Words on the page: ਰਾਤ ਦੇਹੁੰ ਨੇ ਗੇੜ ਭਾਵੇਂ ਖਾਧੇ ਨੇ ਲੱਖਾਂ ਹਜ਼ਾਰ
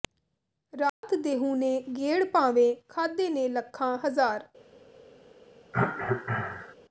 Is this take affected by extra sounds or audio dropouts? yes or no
yes